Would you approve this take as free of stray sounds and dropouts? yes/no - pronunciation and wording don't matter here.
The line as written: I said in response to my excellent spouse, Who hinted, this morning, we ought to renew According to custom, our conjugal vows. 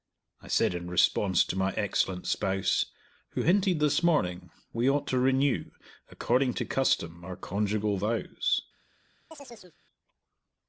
no